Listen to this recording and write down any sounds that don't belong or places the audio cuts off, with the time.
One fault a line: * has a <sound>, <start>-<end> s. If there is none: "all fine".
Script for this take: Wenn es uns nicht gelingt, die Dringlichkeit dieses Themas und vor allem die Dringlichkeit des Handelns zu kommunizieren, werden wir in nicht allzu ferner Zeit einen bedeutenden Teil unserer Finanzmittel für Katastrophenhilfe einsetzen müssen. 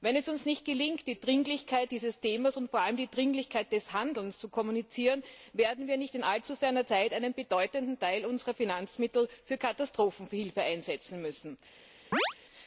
* has a chirp, 12.1-12.3 s